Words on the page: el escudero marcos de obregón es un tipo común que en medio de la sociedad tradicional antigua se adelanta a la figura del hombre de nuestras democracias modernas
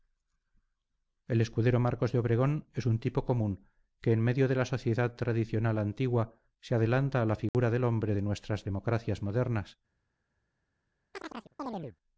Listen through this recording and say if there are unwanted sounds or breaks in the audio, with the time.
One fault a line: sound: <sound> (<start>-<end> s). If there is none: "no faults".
sound: dropout (7.5-7.5 s)
sound: chirp (11.1-12.0 s)